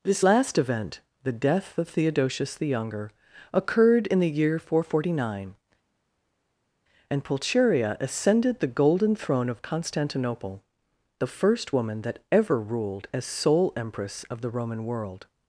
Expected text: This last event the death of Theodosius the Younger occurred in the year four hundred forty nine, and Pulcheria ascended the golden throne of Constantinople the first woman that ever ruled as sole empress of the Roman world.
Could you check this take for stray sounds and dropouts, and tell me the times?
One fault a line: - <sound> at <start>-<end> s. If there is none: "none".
none